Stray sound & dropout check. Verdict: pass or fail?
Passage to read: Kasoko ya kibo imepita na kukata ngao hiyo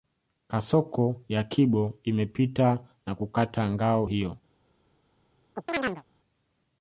fail